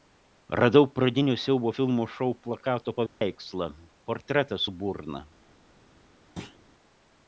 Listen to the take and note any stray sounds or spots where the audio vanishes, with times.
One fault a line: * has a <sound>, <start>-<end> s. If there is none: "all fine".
* has a dropout, 3.1-3.2 s
* has a thud, 6.4-6.6 s